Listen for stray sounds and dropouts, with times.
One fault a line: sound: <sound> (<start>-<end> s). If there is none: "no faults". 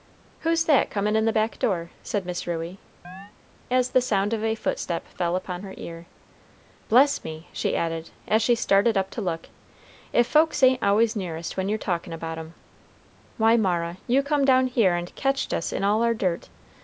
sound: chirp (3.0-3.3 s)